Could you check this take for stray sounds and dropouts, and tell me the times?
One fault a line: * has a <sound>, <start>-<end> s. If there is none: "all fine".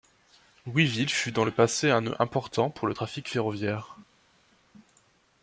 all fine